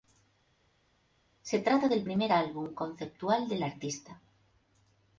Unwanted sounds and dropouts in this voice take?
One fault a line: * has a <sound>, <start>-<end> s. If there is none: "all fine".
all fine